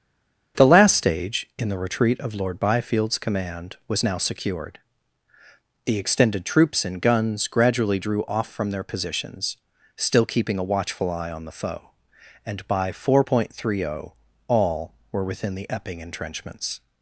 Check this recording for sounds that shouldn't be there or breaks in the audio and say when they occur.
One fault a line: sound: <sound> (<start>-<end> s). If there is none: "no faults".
no faults